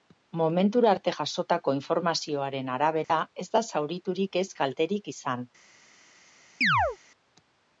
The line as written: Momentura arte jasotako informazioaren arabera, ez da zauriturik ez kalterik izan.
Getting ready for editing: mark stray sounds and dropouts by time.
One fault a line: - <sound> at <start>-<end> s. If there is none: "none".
- dropout at 3.0-3.1 s
- chirp at 6.6-7.0 s